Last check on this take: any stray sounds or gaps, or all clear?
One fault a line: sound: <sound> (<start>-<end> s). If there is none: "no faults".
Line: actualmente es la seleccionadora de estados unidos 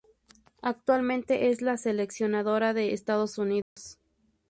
sound: dropout (3.6-3.8 s)